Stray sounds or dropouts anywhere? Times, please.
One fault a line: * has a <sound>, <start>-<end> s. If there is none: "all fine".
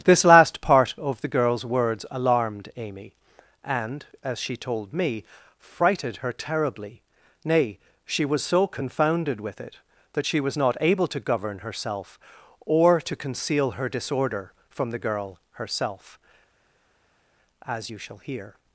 all fine